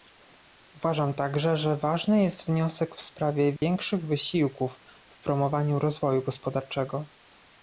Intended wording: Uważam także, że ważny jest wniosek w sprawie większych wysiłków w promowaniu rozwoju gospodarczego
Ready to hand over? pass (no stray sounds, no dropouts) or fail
fail